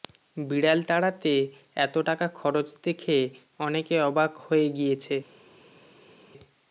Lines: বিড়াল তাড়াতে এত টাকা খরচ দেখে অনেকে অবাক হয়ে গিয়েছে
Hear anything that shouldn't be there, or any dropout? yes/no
no